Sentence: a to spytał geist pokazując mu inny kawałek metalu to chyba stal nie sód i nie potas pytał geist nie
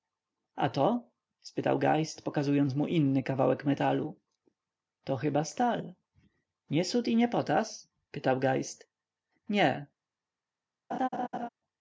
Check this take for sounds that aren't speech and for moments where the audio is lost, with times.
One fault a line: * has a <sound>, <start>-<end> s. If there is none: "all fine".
* has a laugh, 10.9-11.5 s